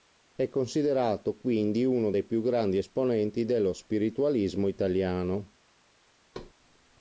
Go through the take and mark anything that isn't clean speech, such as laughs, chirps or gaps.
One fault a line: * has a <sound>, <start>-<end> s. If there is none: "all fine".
* has a thud, 6.3-6.5 s